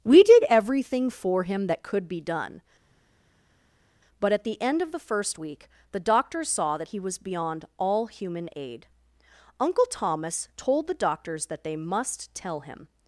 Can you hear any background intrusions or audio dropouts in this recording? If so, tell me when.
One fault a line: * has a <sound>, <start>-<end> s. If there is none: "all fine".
all fine